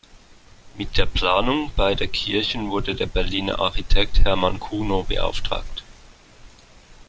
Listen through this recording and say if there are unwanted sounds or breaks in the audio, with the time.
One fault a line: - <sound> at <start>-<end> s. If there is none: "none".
none